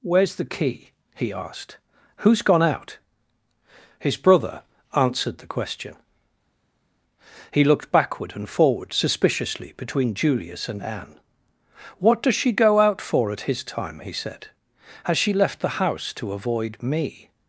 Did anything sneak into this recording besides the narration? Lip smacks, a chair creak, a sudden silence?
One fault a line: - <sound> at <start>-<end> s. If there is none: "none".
none